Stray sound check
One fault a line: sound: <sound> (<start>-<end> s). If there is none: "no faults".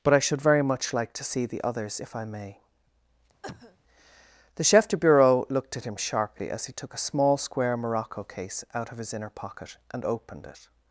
sound: cough (3.4-3.8 s)